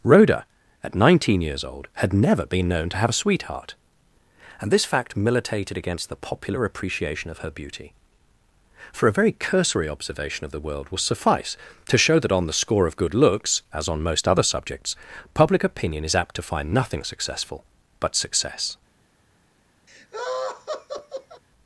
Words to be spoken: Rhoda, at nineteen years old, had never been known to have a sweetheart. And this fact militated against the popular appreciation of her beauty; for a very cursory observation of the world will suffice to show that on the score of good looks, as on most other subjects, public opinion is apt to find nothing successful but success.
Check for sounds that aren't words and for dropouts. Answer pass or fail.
fail